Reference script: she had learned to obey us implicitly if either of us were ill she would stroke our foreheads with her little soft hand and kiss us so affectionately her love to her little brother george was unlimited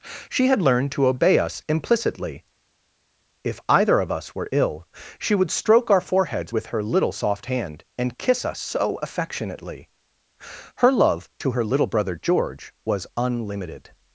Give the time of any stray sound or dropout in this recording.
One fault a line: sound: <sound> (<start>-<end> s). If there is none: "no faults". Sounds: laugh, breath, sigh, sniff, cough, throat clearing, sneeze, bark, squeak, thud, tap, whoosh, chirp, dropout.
no faults